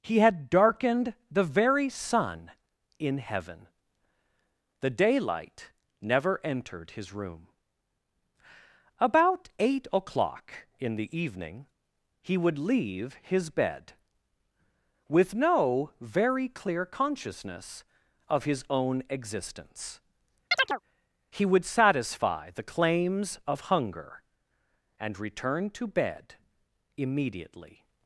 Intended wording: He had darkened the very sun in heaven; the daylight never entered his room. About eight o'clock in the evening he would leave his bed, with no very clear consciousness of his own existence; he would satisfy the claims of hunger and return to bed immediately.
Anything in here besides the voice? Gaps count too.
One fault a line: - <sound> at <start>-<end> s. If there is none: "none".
- chirp at 20.5-20.8 s